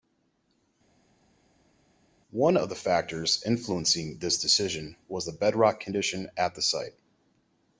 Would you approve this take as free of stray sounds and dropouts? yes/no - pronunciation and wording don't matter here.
yes